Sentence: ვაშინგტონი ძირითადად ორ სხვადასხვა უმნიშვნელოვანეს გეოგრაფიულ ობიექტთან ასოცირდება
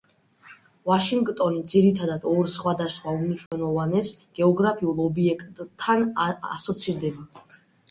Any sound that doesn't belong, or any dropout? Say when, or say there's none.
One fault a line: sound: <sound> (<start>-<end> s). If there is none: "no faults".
sound: dropout (3.5-3.5 s)